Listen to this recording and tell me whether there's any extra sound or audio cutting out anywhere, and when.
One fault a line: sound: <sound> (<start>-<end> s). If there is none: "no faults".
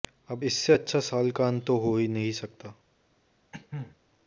sound: cough (3.5-4.0 s)